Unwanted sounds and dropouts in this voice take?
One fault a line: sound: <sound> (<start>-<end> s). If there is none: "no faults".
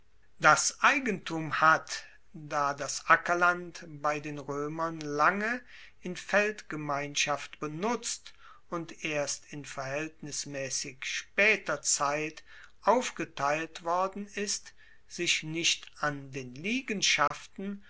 sound: dropout (17.3-17.3 s)